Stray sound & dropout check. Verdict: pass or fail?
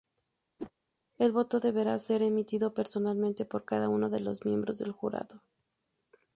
fail